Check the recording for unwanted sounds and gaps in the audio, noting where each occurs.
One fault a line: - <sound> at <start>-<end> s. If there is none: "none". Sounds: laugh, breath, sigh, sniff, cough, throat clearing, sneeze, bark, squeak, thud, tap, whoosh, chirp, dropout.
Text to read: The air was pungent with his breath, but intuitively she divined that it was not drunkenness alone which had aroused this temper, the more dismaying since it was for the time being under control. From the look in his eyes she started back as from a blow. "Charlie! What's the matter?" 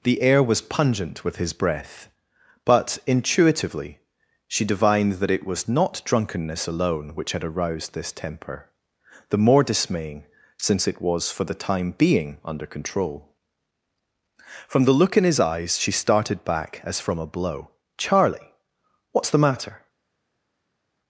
none